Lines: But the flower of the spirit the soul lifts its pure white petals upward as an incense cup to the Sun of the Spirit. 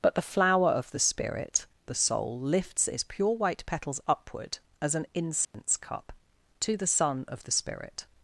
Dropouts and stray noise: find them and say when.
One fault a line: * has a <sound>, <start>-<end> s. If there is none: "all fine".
* has a dropout, 5.4-5.5 s